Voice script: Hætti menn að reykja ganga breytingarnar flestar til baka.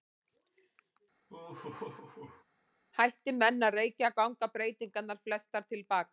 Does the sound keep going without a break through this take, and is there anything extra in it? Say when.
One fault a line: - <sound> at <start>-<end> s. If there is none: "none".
- laugh at 1.3-2.4 s